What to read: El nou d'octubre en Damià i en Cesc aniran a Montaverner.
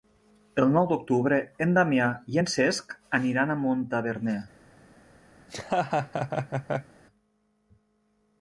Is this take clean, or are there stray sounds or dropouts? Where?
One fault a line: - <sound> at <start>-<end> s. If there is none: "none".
- laugh at 5.4-6.9 s